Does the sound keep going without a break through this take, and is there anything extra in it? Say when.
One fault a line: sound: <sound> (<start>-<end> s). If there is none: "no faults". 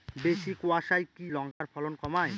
sound: dropout (1.5-1.6 s)